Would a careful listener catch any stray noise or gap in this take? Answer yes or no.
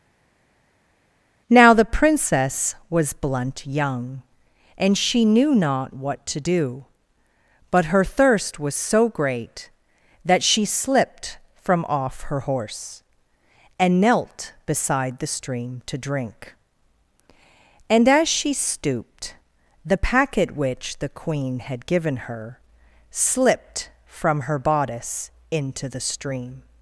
no